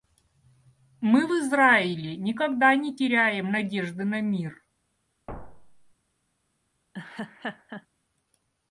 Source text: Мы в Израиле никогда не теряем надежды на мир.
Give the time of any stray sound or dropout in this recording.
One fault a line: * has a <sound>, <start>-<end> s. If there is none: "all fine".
* has a thud, 5.3-5.9 s
* has a laugh, 6.9-7.9 s